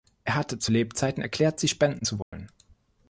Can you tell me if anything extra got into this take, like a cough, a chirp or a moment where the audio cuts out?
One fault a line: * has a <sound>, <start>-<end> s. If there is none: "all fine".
* has a dropout, 2.2-2.3 s